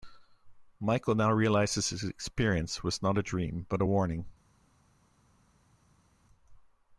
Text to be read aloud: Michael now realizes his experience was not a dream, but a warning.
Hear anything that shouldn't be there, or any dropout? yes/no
no